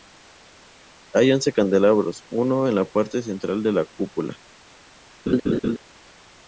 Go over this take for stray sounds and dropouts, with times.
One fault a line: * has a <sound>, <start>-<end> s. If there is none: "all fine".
* has a laugh, 5.3-5.8 s